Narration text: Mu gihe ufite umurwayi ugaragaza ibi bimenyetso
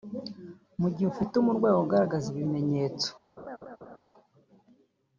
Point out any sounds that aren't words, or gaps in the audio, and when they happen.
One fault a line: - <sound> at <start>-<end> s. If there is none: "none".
- laugh at 3.4-4.0 s